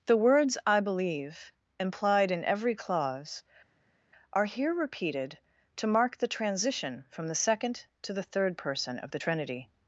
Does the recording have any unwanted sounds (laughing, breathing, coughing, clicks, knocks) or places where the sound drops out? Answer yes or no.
no